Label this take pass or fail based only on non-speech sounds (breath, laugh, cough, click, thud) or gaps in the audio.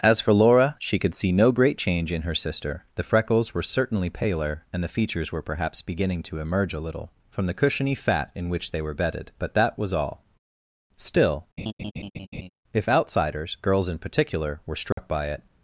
fail